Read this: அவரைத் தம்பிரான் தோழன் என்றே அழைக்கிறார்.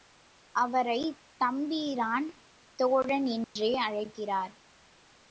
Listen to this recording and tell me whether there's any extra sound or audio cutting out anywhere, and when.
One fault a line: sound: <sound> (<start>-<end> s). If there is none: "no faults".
sound: dropout (3.4-3.6 s)